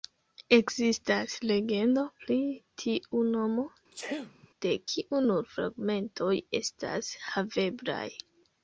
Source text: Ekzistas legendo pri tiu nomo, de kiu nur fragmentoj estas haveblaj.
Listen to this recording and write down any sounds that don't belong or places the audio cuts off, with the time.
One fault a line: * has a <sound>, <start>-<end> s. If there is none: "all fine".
* has a sneeze, 3.9-4.5 s